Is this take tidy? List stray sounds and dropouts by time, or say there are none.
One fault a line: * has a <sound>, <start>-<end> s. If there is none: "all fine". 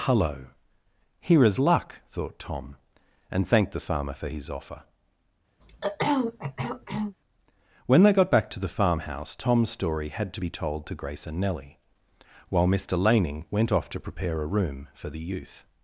* has a throat clearing, 5.6-7.1 s